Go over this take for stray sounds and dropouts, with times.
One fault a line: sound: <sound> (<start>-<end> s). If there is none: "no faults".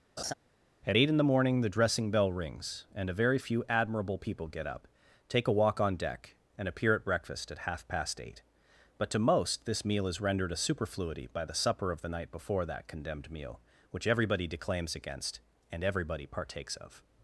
sound: laugh (0.2-0.3 s)